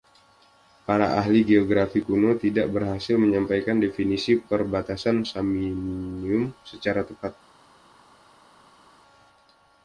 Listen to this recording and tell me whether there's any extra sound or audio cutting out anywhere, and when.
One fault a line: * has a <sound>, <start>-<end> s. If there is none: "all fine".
all fine